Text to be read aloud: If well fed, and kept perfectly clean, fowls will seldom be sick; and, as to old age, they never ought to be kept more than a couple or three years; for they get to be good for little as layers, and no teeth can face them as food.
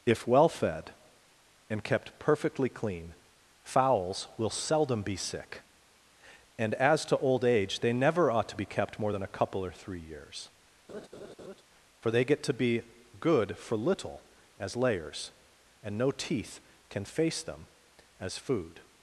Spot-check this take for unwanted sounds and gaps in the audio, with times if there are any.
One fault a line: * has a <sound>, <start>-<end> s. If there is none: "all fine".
* has a laugh, 10.9-11.6 s